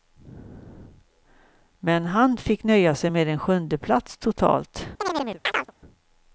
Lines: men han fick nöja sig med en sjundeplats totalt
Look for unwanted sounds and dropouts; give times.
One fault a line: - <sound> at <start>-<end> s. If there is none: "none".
- chirp at 5.0-5.7 s